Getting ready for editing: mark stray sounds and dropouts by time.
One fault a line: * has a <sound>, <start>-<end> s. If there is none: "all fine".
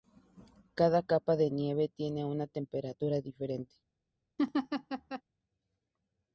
* has a laugh, 4.4-5.2 s